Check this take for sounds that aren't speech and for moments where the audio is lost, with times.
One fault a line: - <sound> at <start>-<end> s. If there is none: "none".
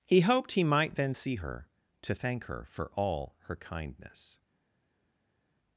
none